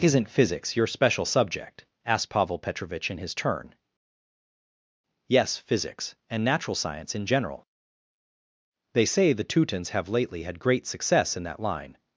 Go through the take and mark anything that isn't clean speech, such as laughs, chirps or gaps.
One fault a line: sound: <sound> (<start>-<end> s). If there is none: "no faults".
no faults